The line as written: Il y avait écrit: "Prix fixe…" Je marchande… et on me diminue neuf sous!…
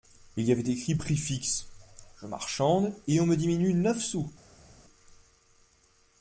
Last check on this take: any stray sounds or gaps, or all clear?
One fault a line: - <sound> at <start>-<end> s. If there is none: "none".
none